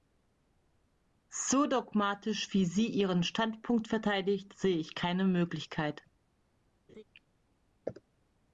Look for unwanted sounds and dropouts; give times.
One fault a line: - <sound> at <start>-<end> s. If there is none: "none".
- laugh at 6.9-7.0 s